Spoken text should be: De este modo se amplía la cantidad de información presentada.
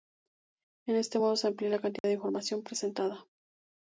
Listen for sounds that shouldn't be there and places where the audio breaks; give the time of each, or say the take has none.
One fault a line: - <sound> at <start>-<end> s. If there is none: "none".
- dropout at 2.0-2.0 s